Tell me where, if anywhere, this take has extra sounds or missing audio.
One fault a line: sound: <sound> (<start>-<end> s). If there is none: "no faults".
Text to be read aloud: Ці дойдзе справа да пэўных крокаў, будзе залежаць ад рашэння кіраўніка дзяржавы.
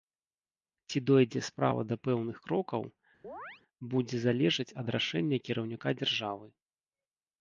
sound: chirp (3.2-3.6 s)